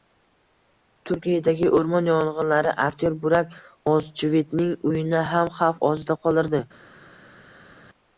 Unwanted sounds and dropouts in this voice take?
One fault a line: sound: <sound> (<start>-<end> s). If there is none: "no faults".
no faults